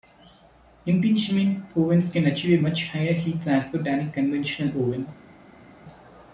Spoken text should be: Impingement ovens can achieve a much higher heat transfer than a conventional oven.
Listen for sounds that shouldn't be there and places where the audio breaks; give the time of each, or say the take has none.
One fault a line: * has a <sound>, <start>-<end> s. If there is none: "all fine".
all fine